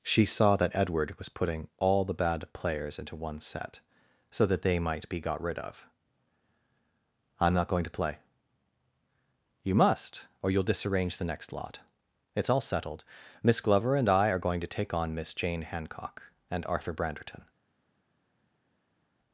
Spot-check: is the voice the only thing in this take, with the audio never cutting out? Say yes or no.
yes